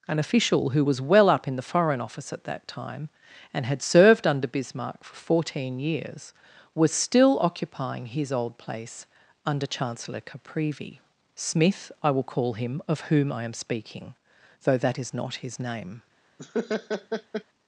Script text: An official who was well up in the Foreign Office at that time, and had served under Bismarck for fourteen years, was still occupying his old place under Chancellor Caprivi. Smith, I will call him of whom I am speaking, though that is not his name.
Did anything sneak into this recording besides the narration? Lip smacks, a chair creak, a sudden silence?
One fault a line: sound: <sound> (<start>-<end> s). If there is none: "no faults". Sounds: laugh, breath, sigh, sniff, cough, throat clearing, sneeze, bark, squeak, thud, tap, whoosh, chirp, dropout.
sound: laugh (16.4-17.4 s)